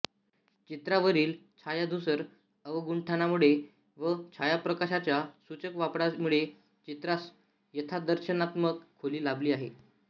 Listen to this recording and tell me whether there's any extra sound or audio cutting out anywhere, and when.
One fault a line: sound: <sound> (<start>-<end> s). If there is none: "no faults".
no faults